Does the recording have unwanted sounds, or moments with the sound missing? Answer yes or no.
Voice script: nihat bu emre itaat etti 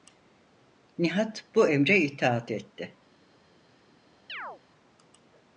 yes